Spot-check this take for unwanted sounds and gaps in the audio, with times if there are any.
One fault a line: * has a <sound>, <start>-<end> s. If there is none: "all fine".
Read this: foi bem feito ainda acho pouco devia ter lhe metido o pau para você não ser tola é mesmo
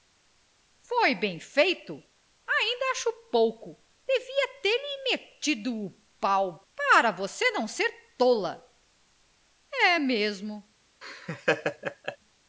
* has a laugh, 11.0-12.2 s